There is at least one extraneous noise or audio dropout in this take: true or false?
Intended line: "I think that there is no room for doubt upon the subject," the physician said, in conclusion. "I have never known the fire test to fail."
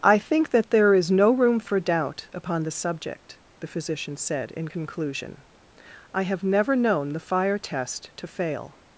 false